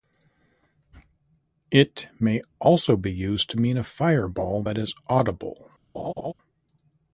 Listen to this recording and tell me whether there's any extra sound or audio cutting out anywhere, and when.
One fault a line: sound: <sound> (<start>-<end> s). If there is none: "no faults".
sound: laugh (5.9-6.3 s)